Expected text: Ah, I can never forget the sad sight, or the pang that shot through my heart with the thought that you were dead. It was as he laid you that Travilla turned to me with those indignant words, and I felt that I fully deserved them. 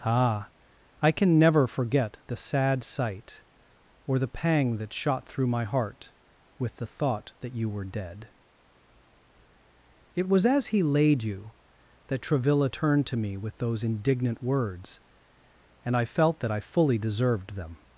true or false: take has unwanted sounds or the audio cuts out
false